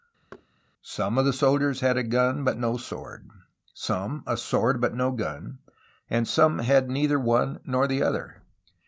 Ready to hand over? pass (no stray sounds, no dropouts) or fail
fail